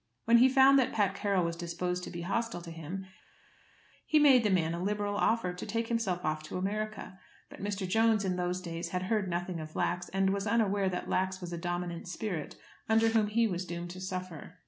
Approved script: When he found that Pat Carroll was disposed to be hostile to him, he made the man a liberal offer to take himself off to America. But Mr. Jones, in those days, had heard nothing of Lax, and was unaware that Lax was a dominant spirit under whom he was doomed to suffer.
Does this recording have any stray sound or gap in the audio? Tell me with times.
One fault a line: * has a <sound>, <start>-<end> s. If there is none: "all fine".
all fine